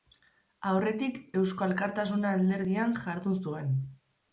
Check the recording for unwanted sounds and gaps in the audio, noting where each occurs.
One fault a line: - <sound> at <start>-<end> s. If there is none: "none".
none